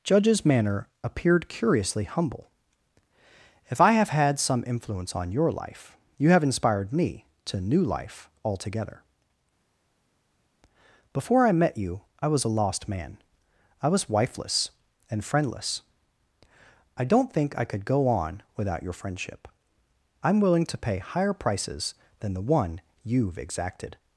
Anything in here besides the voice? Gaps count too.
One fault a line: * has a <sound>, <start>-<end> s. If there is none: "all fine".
all fine